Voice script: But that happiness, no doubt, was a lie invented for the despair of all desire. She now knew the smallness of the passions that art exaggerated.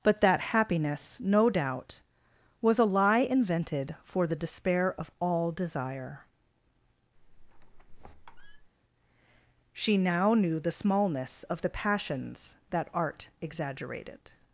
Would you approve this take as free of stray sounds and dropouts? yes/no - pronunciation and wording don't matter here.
no